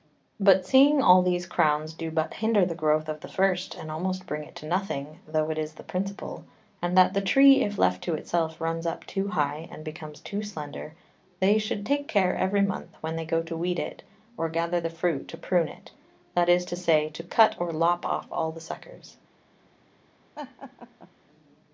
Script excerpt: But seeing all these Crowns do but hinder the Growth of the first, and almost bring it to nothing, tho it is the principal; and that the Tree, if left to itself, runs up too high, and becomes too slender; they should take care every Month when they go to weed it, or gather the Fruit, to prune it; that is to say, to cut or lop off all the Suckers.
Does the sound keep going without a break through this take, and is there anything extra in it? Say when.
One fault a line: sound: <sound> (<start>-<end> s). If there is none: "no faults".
sound: laugh (20.4-21.1 s)